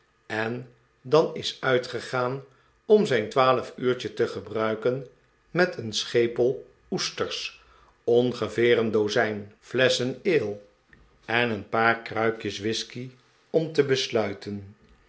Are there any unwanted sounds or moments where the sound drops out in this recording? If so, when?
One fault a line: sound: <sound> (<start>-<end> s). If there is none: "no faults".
no faults